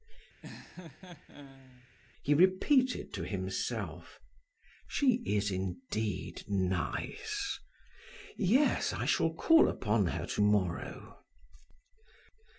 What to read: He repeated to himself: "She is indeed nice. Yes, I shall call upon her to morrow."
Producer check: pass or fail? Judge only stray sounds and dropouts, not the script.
fail